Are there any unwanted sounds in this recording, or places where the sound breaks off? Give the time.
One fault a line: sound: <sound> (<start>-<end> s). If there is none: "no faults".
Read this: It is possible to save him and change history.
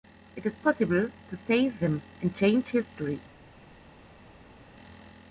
no faults